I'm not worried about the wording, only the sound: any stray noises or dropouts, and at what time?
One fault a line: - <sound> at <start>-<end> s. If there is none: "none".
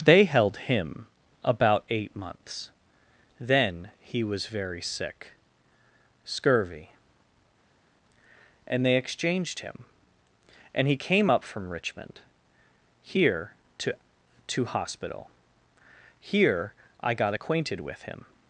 none